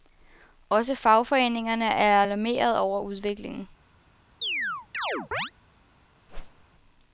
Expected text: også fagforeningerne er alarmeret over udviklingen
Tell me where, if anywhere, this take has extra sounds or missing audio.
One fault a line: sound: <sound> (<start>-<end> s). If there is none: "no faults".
sound: chirp (4.4-5.5 s)
sound: whoosh (6.3-6.6 s)